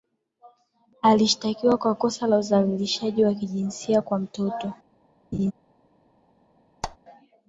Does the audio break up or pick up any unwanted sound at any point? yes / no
yes